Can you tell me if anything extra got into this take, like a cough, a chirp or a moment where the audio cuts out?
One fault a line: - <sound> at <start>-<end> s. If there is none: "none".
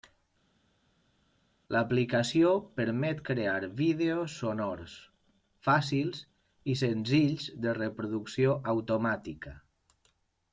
none